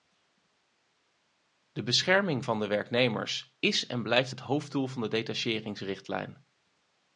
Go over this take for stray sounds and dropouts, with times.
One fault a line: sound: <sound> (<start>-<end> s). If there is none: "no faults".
no faults